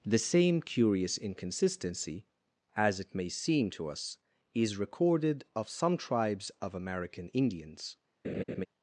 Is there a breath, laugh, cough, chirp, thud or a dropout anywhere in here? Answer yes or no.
yes